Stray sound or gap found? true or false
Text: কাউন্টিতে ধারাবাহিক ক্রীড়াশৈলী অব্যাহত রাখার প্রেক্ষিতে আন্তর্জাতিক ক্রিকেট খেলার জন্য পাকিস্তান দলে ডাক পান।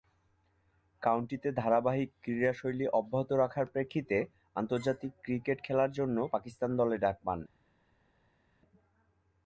false